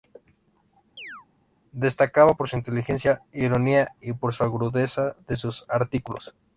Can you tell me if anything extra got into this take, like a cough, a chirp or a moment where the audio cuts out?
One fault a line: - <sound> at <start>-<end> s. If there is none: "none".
- chirp at 1.0-1.3 s